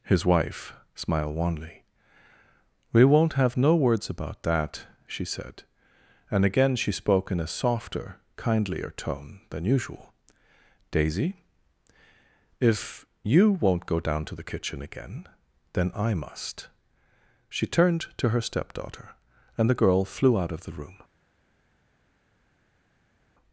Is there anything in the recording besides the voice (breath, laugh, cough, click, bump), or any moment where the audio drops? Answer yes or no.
no